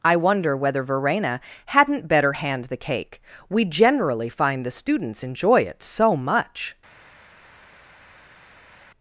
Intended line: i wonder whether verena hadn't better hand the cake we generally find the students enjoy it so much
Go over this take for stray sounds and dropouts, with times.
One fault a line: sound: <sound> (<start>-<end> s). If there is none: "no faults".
no faults